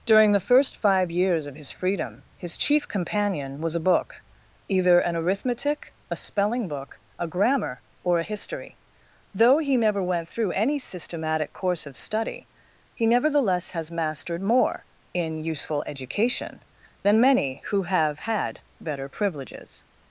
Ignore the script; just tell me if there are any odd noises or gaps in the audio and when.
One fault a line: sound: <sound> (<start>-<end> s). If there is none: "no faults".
no faults